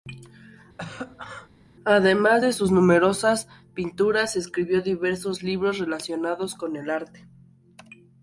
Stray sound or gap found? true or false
true